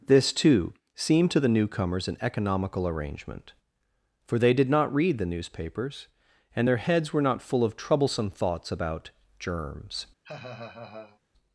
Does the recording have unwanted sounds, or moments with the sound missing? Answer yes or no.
yes